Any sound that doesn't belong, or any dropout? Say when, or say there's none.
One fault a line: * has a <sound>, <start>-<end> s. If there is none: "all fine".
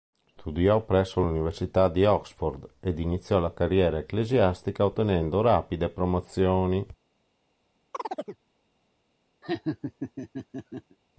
* has a chirp, 7.9-8.4 s
* has a laugh, 9.4-11.0 s